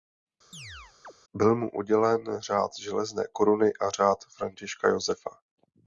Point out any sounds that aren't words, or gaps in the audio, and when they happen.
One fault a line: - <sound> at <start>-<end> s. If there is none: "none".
- chirp at 0.5-1.1 s